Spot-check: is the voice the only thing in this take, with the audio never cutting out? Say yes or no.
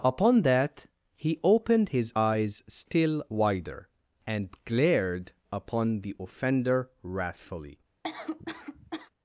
no